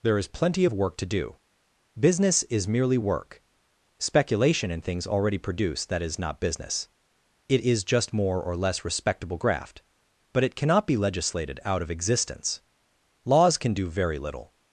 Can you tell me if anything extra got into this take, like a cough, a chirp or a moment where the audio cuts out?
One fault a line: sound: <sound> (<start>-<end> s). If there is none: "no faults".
no faults